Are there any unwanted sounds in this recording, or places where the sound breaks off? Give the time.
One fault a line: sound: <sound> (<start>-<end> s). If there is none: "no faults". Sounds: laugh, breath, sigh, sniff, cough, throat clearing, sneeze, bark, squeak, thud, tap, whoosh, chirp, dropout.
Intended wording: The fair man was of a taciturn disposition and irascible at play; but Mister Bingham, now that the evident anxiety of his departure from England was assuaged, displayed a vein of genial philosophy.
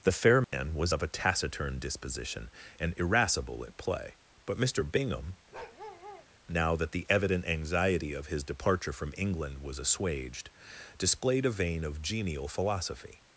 sound: dropout (0.4-0.5 s)
sound: bark (5.5-6.3 s)